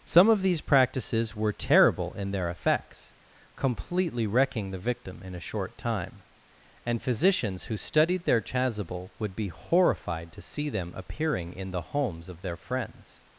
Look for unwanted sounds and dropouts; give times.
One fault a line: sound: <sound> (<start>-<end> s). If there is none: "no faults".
no faults